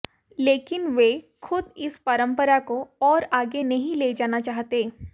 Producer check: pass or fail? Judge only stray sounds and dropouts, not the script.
pass